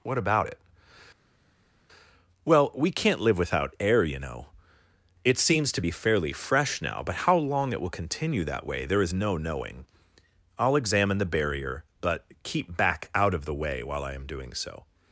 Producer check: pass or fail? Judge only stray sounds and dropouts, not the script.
pass